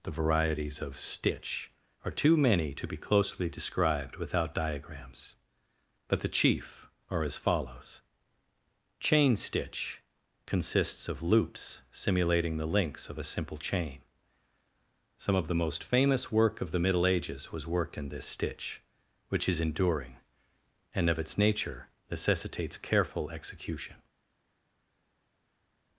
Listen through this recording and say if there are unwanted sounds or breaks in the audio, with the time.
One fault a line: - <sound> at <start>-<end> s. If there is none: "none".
none